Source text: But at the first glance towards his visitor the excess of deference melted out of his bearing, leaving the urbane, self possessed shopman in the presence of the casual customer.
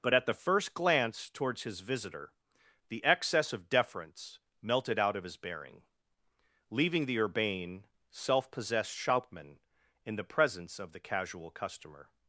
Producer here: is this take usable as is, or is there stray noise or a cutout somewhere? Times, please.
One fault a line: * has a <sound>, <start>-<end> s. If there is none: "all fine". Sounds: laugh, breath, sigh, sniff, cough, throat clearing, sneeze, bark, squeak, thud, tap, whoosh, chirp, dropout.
all fine